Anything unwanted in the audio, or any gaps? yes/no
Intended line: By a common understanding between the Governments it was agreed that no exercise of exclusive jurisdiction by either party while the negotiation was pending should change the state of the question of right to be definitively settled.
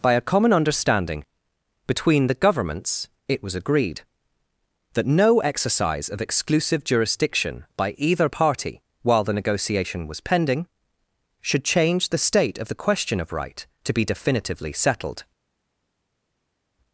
no